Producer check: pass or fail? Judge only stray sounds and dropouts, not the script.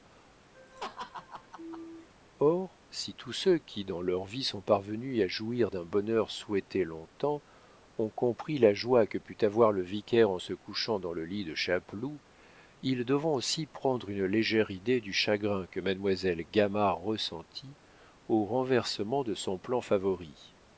fail